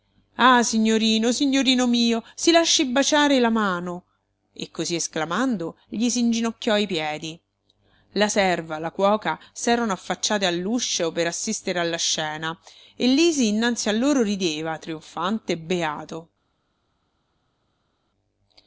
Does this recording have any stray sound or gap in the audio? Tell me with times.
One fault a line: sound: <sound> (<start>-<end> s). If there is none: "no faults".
no faults